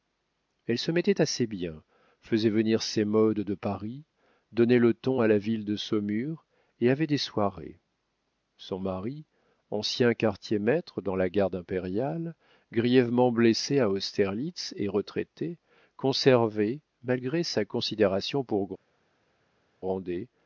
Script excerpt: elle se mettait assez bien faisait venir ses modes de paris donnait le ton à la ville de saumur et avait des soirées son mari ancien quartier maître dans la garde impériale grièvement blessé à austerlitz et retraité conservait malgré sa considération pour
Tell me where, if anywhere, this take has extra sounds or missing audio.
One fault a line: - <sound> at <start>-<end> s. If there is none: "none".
none